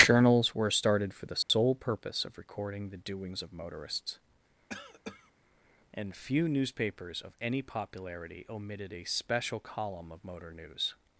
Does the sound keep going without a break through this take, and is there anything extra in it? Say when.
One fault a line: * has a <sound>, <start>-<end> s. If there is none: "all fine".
* has a dropout, 1.4-1.5 s
* has a cough, 4.7-5.3 s